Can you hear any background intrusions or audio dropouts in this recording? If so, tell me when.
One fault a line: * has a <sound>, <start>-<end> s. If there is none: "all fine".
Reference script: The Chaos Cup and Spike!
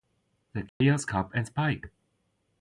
* has a dropout, 0.7-0.8 s